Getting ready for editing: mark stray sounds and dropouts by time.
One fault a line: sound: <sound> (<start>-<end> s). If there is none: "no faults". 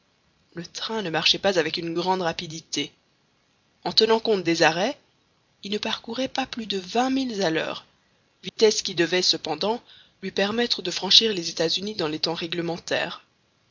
sound: dropout (8.5-8.6 s)